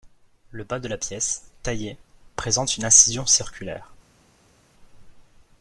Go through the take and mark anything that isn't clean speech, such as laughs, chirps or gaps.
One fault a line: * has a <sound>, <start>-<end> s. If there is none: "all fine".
all fine